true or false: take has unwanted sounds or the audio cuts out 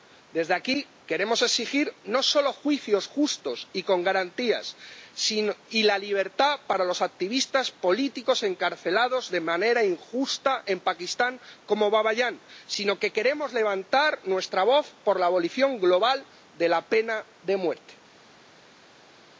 false